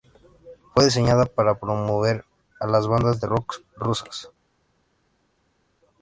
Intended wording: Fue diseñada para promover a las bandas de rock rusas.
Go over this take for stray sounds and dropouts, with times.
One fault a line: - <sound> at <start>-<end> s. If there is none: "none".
none